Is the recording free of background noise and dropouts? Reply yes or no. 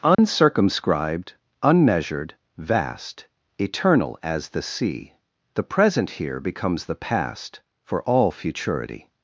no